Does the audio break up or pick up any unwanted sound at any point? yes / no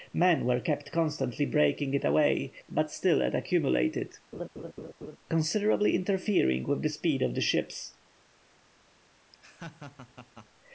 yes